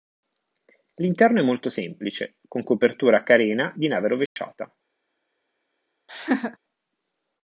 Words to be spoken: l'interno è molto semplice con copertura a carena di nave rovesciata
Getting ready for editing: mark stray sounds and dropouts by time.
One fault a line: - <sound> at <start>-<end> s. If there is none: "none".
- dropout at 4.3-4.4 s
- laugh at 6.1-6.6 s